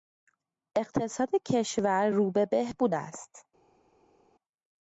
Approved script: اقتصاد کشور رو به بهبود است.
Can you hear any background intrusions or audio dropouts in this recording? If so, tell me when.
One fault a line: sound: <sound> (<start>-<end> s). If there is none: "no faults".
no faults